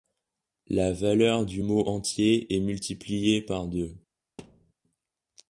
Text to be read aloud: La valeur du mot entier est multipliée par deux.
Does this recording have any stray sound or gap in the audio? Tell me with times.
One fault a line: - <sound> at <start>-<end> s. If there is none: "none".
- thud at 4.4-4.7 s